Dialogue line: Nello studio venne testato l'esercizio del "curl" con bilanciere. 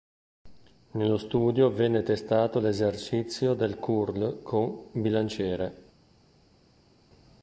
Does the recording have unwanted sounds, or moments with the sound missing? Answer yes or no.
no